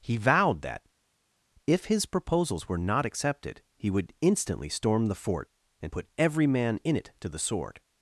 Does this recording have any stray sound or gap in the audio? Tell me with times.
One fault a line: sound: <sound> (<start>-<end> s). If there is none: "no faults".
no faults